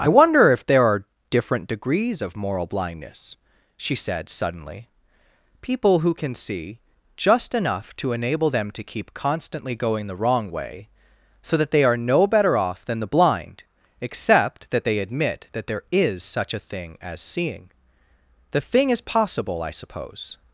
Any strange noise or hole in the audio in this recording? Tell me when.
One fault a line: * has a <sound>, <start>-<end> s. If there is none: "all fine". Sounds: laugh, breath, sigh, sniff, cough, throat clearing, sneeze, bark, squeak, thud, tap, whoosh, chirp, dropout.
all fine